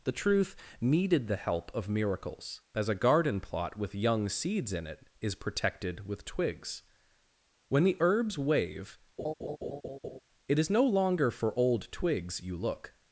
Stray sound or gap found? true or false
true